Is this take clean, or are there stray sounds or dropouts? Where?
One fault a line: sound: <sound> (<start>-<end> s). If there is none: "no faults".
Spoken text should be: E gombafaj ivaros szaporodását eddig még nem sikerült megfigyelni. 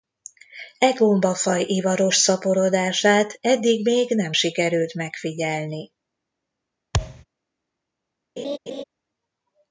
sound: thud (6.9-7.2 s)
sound: laugh (8.4-8.8 s)